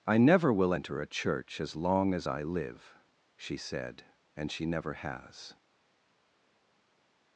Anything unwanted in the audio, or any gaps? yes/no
no